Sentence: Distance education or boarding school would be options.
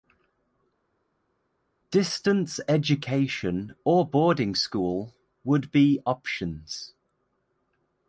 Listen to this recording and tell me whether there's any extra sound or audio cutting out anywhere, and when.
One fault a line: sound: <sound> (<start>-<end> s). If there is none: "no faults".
no faults